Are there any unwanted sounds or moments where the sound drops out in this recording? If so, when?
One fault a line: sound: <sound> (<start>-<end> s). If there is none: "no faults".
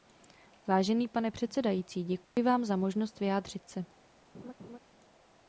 sound: dropout (2.2-2.4 s)
sound: laugh (4.3-4.8 s)